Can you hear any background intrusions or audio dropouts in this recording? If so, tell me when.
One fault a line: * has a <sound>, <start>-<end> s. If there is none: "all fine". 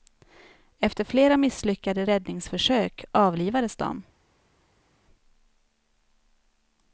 all fine